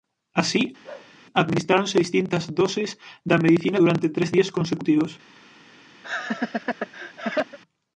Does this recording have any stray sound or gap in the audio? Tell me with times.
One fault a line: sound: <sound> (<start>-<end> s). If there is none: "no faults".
sound: bark (0.8-1.1 s)
sound: laugh (6.0-7.6 s)